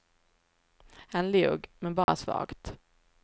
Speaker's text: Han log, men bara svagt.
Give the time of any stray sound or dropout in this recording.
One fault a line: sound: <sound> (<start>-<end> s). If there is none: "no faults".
sound: dropout (2.0-2.1 s)